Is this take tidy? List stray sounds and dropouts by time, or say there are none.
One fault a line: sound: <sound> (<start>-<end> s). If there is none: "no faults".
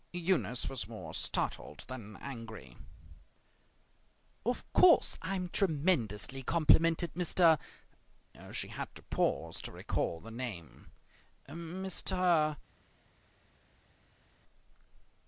no faults